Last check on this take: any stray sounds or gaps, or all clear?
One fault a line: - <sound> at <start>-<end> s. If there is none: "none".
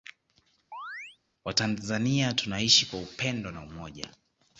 - chirp at 0.7-1.2 s